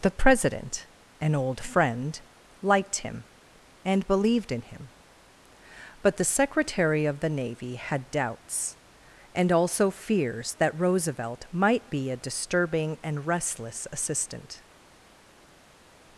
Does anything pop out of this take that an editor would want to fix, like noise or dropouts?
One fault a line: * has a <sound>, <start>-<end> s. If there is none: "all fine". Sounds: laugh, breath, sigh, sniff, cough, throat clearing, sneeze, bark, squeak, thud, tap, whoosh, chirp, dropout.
all fine